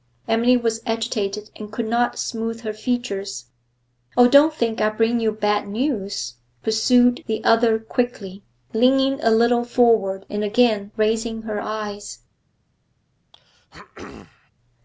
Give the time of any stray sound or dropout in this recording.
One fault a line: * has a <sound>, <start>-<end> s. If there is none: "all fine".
* has a throat clearing, 13.3-14.5 s